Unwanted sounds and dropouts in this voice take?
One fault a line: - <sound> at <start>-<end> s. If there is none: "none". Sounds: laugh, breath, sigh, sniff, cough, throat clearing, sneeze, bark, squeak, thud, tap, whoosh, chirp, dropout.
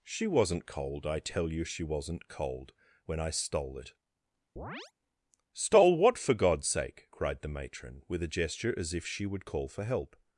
- chirp at 4.6-4.9 s